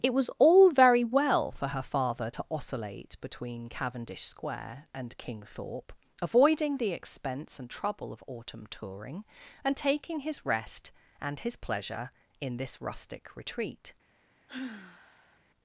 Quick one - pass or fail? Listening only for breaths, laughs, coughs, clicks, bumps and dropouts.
fail